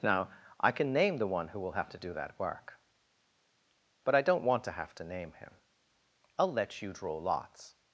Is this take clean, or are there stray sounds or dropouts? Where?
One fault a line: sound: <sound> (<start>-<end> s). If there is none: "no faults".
no faults